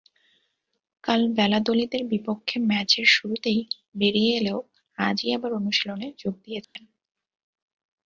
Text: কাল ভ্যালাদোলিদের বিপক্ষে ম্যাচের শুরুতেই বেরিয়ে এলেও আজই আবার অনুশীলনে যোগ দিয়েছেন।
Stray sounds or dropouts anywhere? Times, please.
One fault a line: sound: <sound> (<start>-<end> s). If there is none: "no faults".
sound: dropout (6.6-6.8 s)